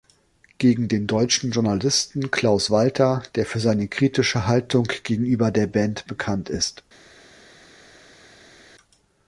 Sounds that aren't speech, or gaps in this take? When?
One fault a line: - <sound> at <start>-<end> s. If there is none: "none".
none